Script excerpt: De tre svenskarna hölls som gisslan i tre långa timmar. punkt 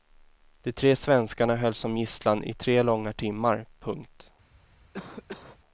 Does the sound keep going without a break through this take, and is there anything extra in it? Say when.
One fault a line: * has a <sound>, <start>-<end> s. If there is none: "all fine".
* has a cough, 4.9-5.6 s